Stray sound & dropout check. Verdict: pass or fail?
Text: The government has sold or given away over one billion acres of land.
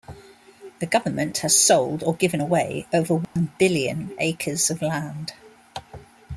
fail